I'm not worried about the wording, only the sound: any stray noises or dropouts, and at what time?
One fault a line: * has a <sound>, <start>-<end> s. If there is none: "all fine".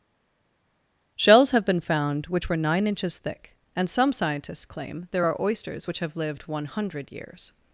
all fine